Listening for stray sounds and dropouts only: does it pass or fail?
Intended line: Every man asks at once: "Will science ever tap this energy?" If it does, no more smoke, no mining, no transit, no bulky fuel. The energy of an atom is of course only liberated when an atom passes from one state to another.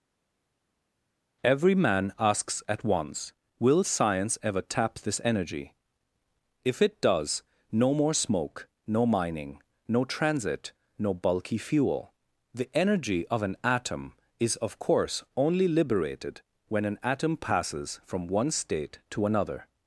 pass